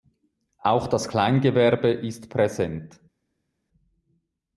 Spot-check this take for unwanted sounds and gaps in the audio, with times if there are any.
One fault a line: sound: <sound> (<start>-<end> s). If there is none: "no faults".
no faults